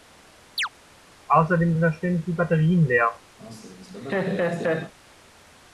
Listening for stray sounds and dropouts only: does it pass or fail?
fail